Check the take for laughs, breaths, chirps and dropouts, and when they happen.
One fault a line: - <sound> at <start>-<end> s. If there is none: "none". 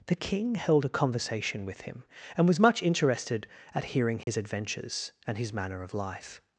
- dropout at 4.2-4.3 s